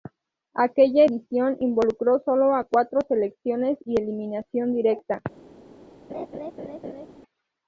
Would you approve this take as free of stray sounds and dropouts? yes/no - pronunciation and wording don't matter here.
no